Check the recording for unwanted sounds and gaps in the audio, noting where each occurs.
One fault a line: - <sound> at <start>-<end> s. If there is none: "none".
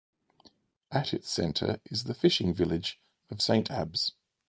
none